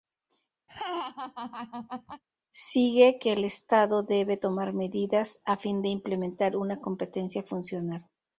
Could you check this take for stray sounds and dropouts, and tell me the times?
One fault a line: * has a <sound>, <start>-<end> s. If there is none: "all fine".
* has a laugh, 0.7-2.2 s